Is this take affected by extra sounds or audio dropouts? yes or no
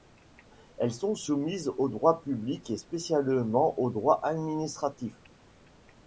no